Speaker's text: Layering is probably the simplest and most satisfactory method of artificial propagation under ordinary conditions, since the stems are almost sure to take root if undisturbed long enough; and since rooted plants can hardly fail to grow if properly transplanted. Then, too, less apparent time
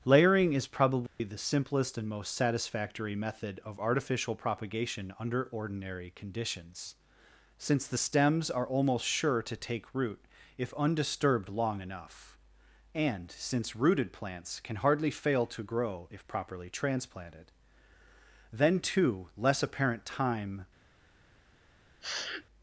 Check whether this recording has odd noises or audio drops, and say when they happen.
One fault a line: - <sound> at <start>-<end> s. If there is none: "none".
- dropout at 1.1-1.2 s
- sniff at 22.0-22.5 s